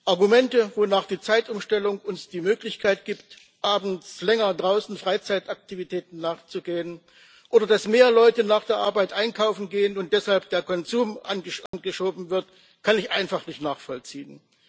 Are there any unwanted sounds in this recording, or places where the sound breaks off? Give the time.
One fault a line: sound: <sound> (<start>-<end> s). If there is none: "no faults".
sound: dropout (11.7-11.7 s)